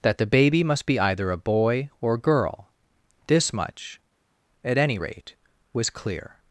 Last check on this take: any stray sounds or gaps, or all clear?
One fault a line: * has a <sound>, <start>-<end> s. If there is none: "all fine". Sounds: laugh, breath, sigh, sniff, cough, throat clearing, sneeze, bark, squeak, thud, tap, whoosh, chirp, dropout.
all fine